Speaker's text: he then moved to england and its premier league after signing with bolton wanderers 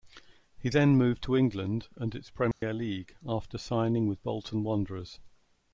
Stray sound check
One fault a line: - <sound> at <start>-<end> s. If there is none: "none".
- dropout at 2.5-2.6 s